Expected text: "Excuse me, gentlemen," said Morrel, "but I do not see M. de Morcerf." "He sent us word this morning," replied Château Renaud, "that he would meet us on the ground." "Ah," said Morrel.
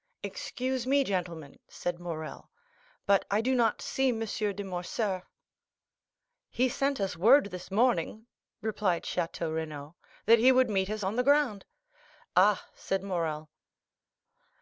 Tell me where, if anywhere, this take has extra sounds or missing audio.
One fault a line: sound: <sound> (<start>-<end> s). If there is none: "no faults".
no faults